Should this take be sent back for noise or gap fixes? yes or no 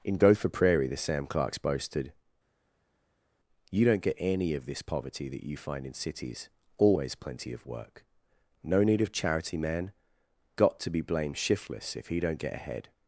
no